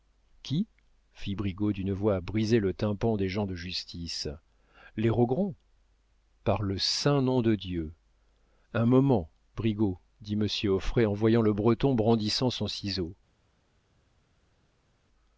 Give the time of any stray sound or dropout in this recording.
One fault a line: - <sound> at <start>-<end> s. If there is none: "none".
none